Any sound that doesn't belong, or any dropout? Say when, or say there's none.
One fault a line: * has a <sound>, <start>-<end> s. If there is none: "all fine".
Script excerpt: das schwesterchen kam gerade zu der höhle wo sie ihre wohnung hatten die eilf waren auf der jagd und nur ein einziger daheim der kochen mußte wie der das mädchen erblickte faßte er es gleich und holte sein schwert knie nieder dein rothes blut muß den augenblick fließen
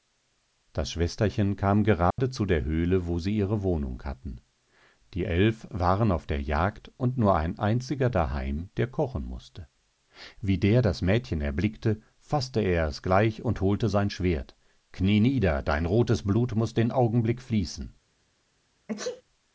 * has a dropout, 2.1-2.2 s
* has a sneeze, 18.9-19.2 s